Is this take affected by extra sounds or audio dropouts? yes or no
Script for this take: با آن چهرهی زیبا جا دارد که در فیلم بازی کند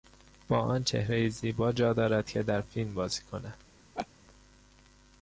yes